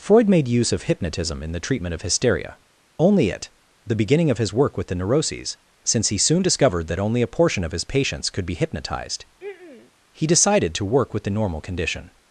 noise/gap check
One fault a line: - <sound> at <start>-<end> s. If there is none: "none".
- throat clearing at 9.4-9.9 s